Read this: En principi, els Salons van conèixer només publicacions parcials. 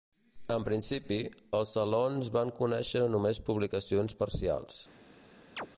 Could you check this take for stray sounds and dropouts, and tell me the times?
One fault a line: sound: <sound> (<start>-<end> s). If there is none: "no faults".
sound: chirp (5.6-5.7 s)